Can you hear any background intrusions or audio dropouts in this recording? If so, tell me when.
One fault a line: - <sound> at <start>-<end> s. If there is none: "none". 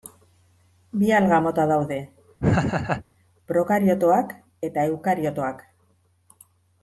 - laugh at 2.4-3.0 s